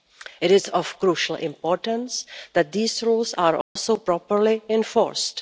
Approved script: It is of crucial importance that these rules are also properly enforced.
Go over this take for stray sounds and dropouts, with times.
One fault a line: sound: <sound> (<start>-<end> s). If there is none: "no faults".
sound: dropout (3.6-3.8 s)